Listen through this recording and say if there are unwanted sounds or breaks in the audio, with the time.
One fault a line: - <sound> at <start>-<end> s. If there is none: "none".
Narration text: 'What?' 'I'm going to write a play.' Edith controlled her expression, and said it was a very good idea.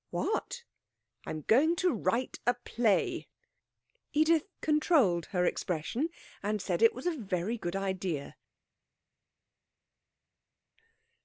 none